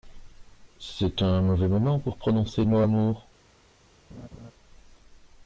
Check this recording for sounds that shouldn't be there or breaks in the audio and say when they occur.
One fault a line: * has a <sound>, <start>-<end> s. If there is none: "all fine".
* has a laugh, 4.1-4.5 s